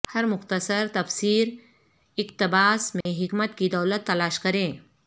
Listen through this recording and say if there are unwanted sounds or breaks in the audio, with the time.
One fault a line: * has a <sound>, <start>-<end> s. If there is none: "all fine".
* has a dropout, 3.0-3.1 s